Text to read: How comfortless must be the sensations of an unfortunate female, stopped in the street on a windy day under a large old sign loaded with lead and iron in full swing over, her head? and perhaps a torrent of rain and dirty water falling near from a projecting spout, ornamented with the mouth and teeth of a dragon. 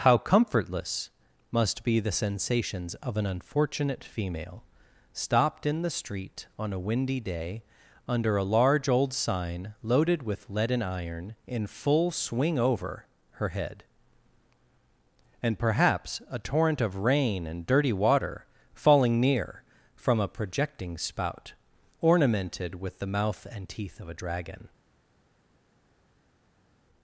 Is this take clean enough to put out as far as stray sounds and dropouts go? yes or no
yes